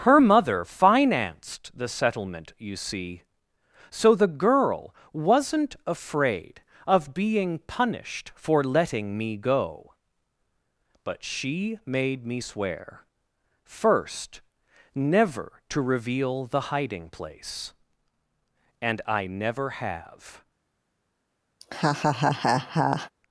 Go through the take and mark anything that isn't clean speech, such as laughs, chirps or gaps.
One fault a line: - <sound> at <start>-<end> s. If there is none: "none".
- laugh at 21.6-23.1 s